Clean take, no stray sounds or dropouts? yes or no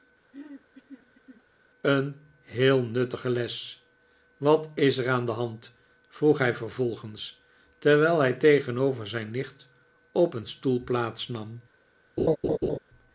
no